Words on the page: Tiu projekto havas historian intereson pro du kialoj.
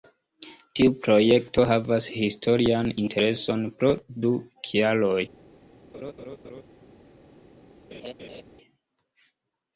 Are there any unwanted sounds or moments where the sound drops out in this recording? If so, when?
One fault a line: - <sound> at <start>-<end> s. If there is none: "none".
- laugh at 5.9-6.6 s
- laugh at 7.9-8.4 s